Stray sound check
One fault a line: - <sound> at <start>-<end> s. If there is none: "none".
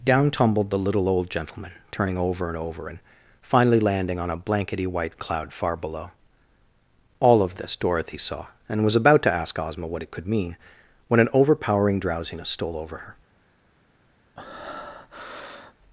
- breath at 14.4-15.7 s